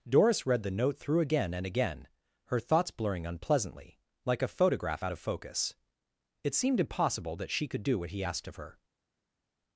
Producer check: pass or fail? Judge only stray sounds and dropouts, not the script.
pass